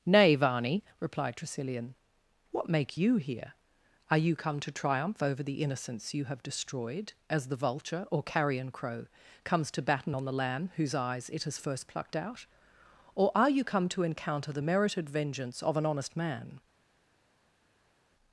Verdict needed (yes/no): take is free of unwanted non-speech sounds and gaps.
yes